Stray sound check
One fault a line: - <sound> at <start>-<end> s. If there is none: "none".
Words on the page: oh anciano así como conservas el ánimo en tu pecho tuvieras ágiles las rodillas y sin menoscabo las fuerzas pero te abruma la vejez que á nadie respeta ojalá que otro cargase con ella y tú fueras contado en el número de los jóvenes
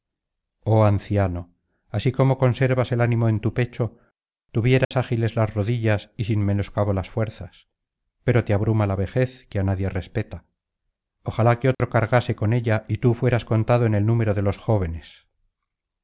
- dropout at 4.8-4.9 s
- dropout at 11.7-11.8 s